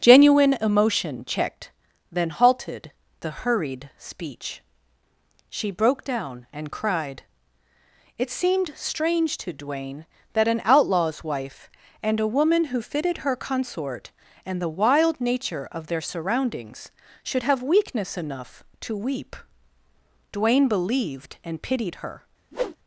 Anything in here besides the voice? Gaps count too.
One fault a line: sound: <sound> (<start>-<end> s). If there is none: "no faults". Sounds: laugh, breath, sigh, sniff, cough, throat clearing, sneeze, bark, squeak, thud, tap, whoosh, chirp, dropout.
sound: whoosh (22.5-22.8 s)